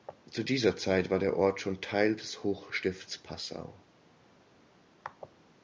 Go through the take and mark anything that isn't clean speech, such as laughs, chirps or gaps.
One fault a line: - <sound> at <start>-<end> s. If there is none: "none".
none